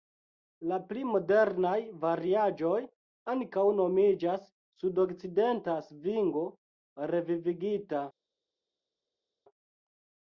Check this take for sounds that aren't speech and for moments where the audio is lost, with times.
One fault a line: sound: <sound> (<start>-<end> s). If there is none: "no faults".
no faults